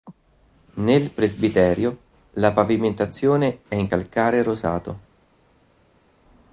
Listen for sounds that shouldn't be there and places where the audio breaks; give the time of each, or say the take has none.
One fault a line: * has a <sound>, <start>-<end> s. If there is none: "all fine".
all fine